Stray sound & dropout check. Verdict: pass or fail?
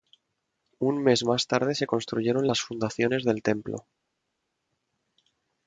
pass